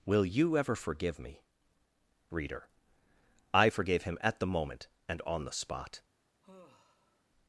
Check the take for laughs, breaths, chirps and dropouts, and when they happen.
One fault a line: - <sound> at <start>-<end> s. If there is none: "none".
- sigh at 6.4-7.2 s